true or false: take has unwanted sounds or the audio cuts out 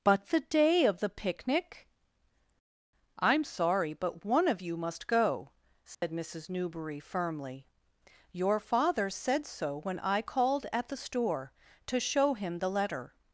true